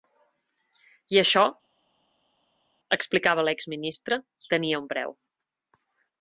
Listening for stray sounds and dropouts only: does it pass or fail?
pass